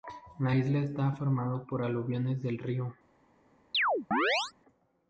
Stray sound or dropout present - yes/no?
yes